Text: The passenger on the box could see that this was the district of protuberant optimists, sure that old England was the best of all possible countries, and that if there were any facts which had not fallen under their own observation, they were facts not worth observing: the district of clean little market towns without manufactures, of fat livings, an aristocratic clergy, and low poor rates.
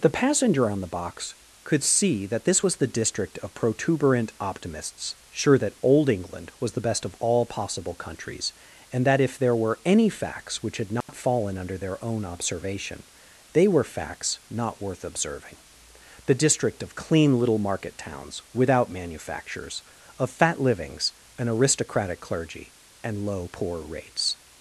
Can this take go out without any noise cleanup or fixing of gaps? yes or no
no